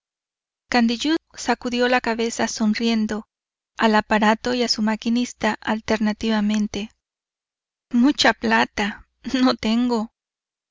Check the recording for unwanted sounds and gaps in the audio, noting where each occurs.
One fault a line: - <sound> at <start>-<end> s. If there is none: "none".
none